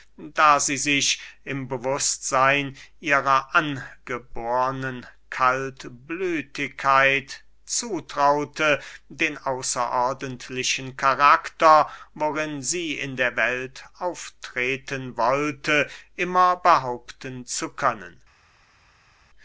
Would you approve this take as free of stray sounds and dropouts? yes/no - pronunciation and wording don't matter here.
yes